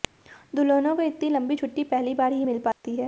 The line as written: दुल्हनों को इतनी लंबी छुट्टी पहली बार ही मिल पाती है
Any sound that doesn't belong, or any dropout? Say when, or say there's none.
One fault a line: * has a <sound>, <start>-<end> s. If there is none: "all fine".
* has a dropout, 2.7-2.8 s